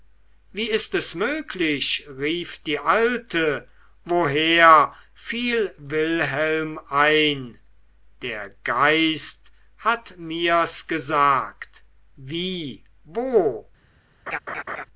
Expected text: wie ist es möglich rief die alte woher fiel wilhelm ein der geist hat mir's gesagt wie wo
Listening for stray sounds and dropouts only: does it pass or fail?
fail